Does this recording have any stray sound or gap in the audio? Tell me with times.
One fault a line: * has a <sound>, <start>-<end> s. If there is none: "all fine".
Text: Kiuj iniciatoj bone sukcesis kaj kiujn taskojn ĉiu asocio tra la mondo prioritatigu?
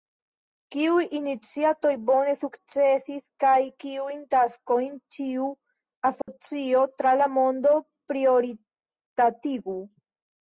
* has a dropout, 6.2-6.3 s